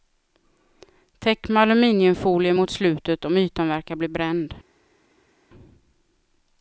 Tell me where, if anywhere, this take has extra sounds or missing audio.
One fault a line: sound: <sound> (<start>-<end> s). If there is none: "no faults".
no faults